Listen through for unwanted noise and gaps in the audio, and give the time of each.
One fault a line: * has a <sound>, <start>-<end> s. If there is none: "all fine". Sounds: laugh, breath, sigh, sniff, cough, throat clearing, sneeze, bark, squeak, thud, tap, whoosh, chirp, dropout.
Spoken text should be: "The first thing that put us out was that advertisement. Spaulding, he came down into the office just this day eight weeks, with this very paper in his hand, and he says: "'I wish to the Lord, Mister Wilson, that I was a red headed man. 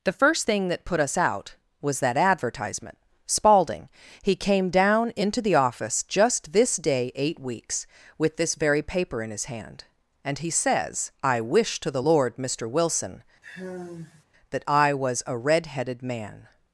* has a sigh, 13.4-14.2 s